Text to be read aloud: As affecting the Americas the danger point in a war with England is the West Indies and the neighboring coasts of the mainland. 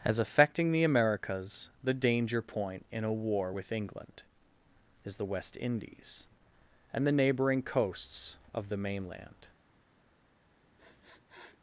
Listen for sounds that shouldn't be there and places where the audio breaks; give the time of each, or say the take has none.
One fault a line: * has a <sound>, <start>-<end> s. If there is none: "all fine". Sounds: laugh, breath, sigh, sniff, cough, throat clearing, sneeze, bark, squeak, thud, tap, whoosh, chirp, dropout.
* has a sniff, 10.8-11.6 s